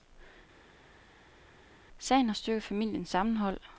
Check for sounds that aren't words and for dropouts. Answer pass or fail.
pass